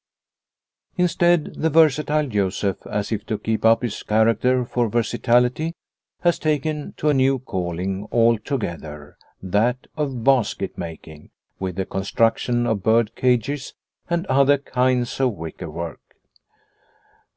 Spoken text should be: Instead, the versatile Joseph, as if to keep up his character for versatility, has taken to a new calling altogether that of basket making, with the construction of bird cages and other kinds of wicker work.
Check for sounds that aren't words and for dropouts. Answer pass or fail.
pass